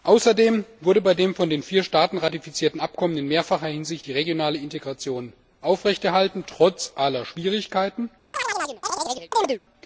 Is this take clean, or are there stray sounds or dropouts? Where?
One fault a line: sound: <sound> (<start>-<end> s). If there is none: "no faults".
sound: chirp (8.3-9.6 s)